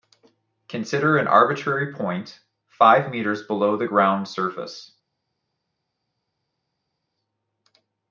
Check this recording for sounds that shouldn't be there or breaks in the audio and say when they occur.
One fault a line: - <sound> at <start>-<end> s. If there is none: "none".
none